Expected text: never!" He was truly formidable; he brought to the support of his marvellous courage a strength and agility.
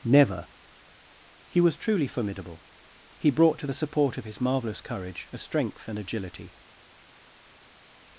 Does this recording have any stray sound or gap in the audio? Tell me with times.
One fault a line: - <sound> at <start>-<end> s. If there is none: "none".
none